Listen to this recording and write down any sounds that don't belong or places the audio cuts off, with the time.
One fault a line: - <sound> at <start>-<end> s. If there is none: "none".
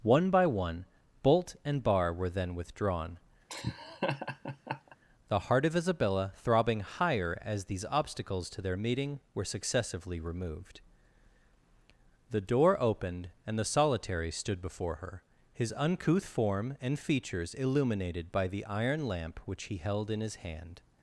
- laugh at 3.5-5.0 s